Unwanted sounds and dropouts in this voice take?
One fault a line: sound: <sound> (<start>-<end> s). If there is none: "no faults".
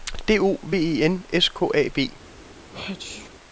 sound: sneeze (2.7-3.3 s)